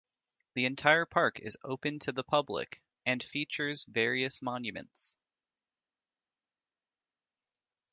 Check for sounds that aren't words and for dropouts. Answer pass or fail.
pass